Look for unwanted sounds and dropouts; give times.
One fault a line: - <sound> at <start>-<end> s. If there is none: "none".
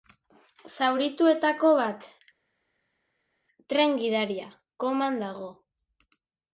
none